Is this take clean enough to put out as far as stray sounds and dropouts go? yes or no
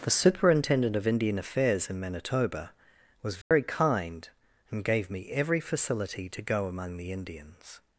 no